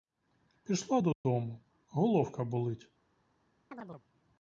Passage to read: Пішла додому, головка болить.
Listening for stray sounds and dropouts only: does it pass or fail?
fail